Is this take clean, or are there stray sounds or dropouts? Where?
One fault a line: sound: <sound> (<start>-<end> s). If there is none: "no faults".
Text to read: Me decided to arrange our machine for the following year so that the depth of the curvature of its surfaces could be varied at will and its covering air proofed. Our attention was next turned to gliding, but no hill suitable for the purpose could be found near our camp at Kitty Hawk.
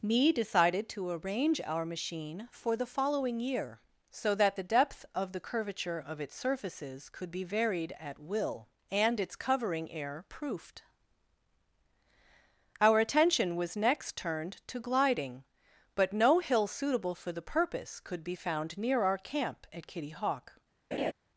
sound: laugh (20.9-21.1 s)